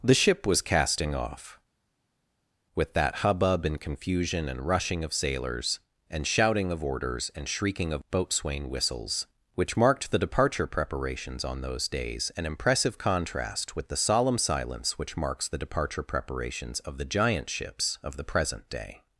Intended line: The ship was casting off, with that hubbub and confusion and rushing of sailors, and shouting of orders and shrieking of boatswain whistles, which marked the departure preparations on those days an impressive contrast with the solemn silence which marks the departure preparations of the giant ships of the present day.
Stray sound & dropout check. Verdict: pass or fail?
pass